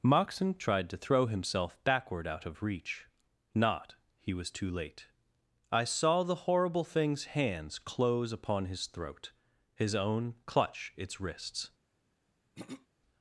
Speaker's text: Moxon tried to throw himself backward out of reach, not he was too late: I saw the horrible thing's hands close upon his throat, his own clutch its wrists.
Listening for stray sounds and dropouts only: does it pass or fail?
fail